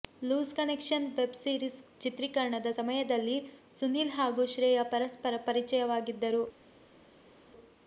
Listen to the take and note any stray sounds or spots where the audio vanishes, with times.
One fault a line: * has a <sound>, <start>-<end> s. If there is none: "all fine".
all fine